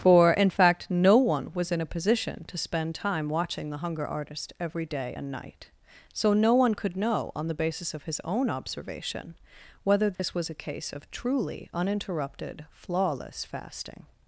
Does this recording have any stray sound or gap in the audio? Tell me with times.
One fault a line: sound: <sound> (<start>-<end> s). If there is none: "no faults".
sound: dropout (10.2-10.2 s)